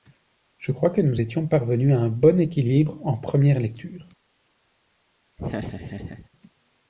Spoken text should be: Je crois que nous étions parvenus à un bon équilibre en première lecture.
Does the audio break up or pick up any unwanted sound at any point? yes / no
yes